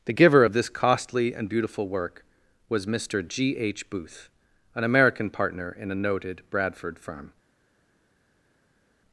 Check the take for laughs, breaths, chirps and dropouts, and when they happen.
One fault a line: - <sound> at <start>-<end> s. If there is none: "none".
none